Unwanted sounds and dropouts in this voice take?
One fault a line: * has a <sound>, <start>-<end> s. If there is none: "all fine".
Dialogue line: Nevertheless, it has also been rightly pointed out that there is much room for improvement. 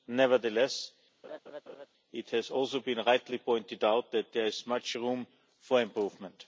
* has a laugh, 1.2-1.9 s